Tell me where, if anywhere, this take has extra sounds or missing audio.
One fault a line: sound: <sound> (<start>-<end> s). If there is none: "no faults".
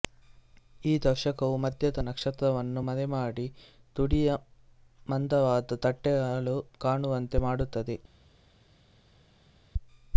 no faults